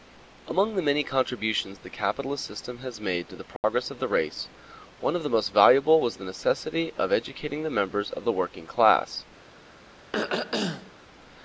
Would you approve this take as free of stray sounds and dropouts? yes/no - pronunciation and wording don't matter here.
no